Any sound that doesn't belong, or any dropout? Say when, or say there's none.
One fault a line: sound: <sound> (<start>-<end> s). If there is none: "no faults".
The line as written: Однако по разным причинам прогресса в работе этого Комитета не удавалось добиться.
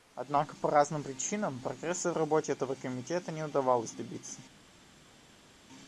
no faults